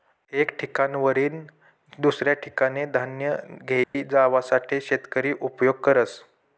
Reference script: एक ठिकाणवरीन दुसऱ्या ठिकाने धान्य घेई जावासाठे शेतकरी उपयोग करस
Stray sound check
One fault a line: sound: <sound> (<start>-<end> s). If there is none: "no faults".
sound: dropout (3.8-3.9 s)